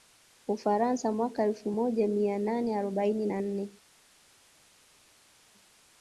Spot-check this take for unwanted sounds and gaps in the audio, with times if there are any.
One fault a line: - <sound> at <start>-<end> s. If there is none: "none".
none